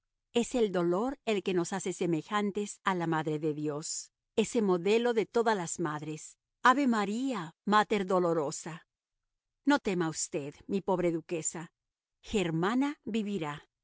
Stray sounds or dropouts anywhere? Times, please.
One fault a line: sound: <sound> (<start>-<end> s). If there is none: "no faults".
no faults